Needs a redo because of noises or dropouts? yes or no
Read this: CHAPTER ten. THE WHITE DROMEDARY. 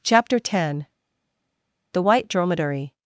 no